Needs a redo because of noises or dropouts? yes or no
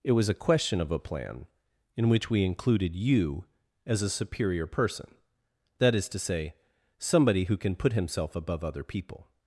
no